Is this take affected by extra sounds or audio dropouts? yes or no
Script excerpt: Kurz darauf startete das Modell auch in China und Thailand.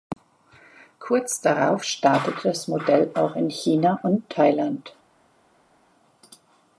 no